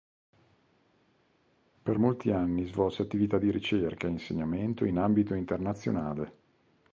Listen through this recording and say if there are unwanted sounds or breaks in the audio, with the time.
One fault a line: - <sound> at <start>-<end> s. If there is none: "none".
none